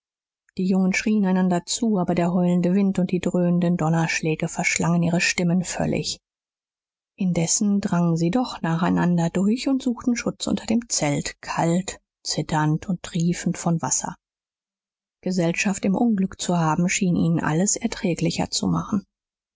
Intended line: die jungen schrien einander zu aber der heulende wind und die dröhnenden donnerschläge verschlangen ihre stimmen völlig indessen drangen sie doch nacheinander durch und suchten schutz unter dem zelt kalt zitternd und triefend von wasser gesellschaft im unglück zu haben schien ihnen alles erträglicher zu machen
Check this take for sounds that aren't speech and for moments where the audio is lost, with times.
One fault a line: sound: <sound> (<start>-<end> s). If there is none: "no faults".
no faults